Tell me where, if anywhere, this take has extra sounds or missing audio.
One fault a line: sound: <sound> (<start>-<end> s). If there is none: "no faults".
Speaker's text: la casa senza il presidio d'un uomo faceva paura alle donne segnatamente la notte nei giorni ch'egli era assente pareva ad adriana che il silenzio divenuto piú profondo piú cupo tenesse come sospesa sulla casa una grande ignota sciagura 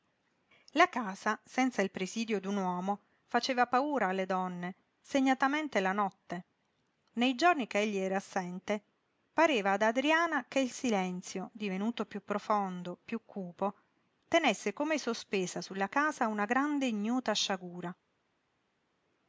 no faults